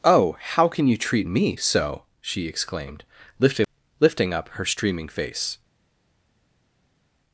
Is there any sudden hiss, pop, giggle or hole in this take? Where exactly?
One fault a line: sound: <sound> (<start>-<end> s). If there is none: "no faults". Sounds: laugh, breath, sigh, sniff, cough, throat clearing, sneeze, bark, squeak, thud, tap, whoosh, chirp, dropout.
no faults